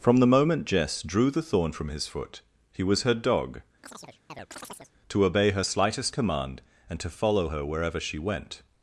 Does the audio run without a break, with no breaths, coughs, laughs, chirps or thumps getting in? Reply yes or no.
no